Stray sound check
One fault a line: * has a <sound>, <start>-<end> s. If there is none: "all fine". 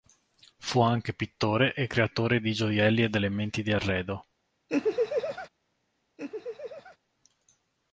* has a laugh, 4.7-5.5 s
* has a laugh, 6.2-7.0 s